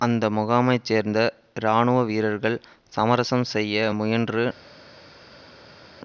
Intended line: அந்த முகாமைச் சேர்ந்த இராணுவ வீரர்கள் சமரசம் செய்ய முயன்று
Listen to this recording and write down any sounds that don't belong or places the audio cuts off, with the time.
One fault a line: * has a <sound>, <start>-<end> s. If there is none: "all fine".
all fine